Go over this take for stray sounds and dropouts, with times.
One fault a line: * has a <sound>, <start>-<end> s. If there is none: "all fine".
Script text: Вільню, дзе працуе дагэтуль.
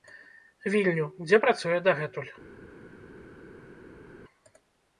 all fine